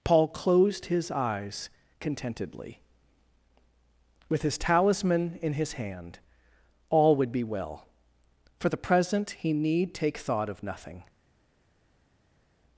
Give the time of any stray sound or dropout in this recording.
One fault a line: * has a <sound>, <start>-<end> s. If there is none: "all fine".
all fine